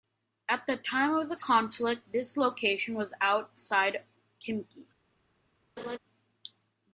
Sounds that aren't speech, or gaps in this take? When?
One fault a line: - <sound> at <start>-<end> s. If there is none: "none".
- laugh at 5.8-6.0 s